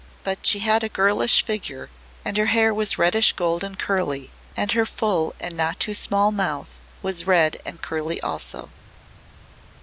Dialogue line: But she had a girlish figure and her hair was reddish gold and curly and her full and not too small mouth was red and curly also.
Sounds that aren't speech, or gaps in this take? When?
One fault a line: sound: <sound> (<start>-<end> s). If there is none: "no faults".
no faults